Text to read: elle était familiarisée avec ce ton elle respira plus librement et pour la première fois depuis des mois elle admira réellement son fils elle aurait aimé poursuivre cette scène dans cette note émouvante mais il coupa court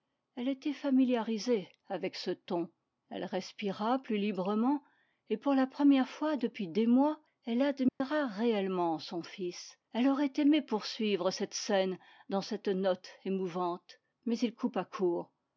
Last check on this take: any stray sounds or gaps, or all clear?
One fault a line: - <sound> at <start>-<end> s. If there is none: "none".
- dropout at 7.9-8.0 s